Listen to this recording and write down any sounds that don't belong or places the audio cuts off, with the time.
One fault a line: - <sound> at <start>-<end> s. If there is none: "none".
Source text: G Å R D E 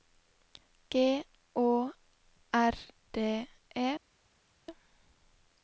none